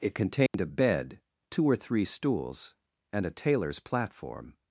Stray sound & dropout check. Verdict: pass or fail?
fail